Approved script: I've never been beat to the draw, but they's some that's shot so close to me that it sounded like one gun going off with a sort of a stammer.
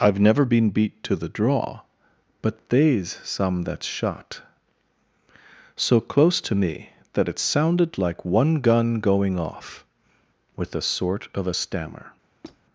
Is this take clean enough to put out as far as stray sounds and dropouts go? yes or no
no